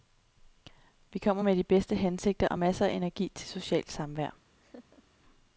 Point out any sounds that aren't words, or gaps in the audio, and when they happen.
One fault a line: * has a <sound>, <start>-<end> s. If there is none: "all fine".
* has a laugh, 4.6-5.0 s